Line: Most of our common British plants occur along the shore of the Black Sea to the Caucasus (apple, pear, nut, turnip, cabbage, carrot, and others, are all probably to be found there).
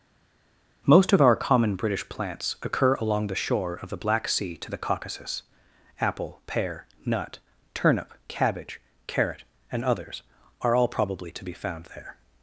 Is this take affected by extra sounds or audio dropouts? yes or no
no